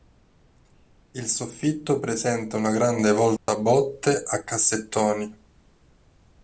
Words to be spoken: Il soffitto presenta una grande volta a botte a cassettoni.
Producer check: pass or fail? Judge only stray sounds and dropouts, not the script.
fail